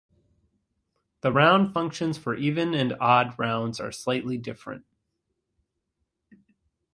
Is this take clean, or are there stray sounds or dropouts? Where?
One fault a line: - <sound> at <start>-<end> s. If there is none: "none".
none